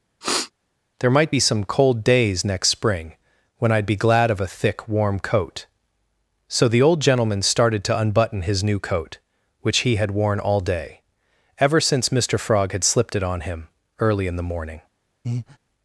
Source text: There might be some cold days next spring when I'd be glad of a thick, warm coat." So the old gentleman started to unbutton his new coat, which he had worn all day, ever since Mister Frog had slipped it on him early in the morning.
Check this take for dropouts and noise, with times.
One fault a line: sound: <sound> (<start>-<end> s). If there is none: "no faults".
sound: sniff (0.2-0.5 s)
sound: breath (15.2-15.6 s)